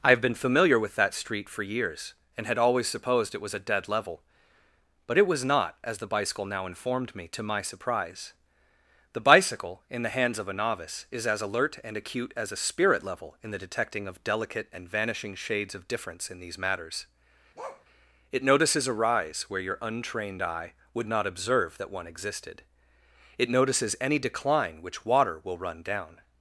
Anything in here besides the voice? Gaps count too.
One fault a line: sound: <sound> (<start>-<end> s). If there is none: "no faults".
sound: bark (17.6-17.9 s)